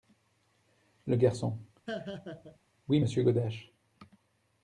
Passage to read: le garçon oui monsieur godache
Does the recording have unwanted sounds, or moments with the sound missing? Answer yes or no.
yes